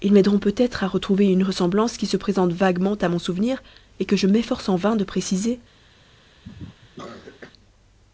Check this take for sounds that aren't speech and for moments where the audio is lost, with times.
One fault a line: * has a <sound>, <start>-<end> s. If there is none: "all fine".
* has a cough, 6.4-7.5 s